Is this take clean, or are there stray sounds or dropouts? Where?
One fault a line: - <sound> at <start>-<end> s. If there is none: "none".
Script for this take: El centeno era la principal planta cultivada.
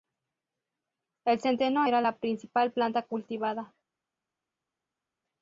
none